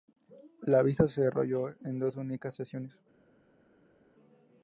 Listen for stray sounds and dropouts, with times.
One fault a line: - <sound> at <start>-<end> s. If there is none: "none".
none